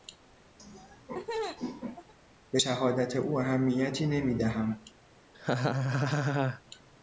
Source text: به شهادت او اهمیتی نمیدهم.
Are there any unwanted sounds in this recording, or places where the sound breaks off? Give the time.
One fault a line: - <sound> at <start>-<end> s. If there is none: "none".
- laugh at 0.6-2.1 s
- laugh at 5.3-6.6 s